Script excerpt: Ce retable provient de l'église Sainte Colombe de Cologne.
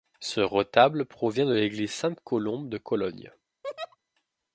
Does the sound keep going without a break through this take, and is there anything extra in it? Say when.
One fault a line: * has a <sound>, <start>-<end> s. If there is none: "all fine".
* has a laugh, 3.6-4.0 s